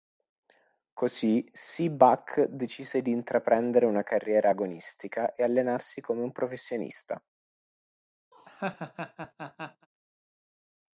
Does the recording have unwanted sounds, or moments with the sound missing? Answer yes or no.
yes